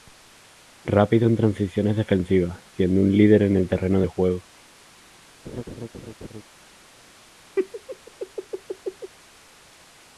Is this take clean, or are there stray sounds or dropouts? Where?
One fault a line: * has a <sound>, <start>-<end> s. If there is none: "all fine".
* has a laugh, 5.4-6.4 s
* has a laugh, 7.6-9.1 s